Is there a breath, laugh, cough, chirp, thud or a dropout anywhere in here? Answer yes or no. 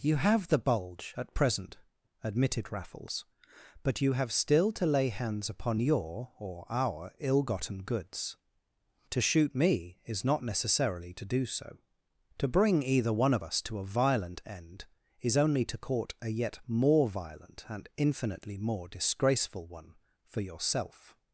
no